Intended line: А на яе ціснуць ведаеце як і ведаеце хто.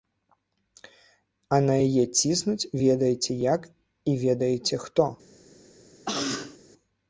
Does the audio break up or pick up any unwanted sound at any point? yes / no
yes